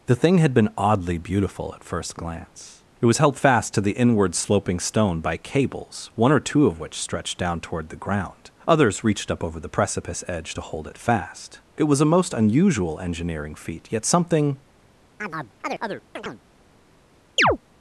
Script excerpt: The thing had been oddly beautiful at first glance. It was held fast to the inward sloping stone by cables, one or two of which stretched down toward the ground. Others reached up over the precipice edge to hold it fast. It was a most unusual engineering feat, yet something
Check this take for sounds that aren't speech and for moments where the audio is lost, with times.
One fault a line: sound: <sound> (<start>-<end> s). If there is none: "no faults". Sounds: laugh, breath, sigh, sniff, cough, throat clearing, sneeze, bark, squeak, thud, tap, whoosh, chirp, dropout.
sound: chirp (15.2-16.4 s)
sound: chirp (17.4-17.6 s)